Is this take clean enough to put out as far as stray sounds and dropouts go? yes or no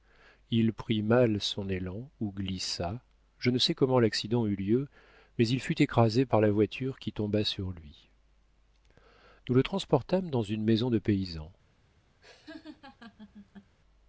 no